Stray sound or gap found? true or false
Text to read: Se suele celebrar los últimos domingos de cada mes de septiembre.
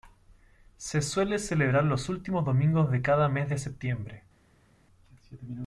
false